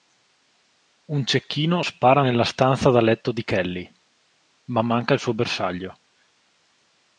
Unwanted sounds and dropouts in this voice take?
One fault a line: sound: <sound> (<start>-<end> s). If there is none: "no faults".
no faults